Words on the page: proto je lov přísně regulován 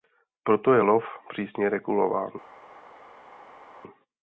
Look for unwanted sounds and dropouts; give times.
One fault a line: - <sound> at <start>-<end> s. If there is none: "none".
none